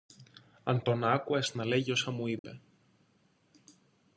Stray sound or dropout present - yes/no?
yes